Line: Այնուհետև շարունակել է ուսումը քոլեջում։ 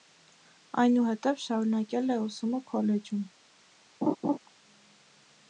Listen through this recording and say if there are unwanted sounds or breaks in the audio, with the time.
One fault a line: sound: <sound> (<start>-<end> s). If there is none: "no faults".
sound: laugh (4.0-4.4 s)